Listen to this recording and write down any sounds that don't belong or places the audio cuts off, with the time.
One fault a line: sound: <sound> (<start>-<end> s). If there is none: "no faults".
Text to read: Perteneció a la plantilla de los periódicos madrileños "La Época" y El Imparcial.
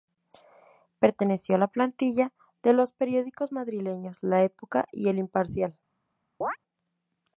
sound: chirp (6.4-6.6 s)